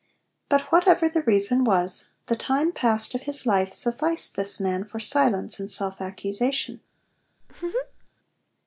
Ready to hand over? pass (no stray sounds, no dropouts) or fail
fail